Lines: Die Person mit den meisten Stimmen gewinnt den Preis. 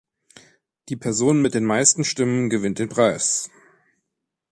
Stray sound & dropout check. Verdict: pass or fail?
pass